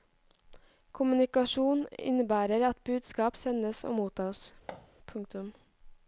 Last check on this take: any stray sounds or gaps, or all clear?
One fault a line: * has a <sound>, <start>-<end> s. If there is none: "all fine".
* has a thud, 4.7-4.9 s